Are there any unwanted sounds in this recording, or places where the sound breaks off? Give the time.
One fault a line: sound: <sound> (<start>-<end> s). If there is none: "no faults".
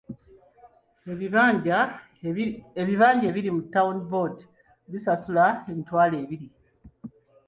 no faults